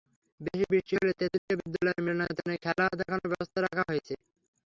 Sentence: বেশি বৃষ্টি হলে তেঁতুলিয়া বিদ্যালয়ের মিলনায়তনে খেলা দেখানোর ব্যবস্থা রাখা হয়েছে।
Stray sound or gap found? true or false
true